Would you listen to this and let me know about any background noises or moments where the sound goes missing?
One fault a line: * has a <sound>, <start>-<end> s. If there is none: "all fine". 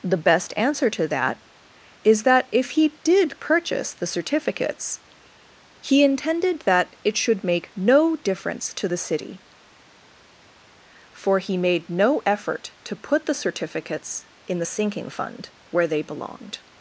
all fine